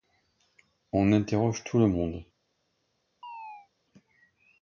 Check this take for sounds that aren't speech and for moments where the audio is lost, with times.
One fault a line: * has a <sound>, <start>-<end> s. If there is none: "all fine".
* has a chirp, 3.2-3.7 s